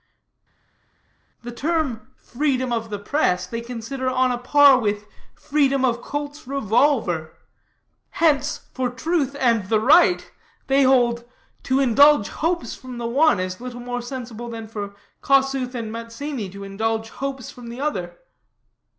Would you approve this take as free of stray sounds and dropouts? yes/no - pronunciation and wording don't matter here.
yes